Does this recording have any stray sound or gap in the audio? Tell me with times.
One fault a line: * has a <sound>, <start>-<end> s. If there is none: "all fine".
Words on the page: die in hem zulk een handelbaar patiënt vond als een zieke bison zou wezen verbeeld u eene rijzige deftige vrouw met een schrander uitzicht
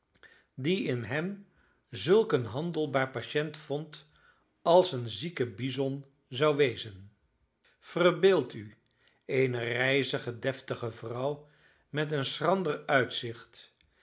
all fine